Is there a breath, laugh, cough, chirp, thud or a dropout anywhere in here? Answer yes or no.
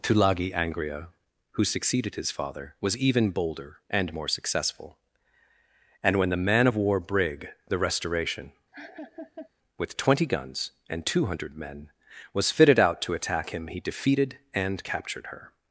yes